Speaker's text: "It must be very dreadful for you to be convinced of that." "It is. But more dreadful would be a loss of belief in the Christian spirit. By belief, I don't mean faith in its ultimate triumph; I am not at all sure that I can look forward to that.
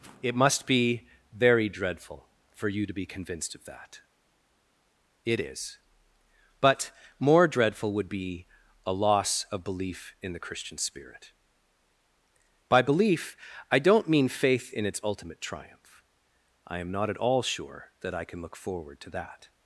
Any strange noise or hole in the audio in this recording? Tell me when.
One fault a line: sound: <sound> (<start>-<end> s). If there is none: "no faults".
no faults